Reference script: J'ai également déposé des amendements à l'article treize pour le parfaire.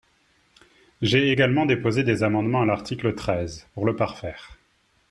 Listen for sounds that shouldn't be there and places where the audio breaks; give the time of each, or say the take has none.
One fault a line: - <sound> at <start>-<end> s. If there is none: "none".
none